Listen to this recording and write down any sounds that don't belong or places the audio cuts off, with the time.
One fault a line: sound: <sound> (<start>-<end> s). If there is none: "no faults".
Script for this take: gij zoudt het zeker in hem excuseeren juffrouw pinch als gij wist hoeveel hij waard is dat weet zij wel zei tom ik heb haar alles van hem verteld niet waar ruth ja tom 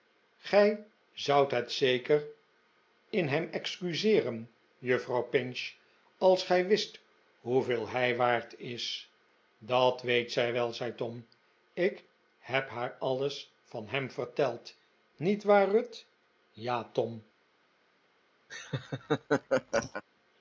sound: laugh (18.5-20.0 s)